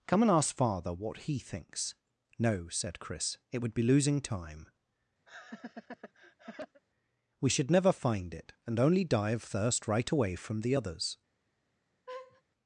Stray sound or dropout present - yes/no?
yes